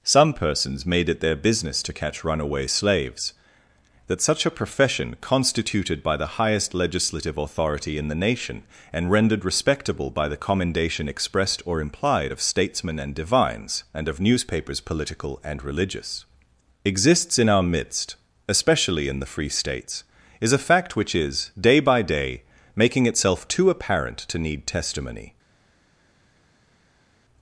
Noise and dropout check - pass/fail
pass